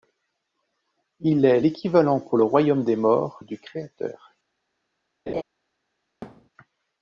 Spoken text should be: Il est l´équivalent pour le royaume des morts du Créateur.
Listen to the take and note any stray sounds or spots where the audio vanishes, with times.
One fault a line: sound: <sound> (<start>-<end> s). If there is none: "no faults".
sound: laugh (5.3-5.4 s)
sound: thud (6.2-6.5 s)